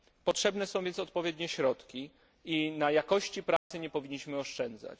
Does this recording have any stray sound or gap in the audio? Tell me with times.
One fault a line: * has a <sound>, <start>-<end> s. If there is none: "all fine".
* has a dropout, 3.6-3.7 s